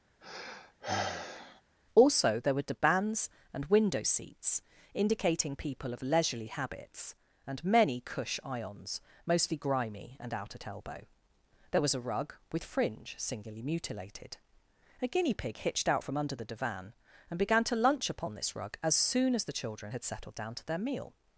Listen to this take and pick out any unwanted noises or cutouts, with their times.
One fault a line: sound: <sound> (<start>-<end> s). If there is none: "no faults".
sound: sigh (0.2-1.6 s)